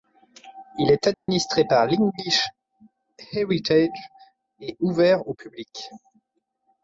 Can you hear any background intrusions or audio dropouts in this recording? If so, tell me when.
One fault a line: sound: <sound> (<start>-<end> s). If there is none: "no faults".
sound: dropout (1.1-1.3 s)